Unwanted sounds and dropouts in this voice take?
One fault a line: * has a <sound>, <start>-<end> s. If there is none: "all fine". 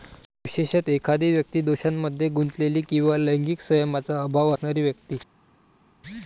all fine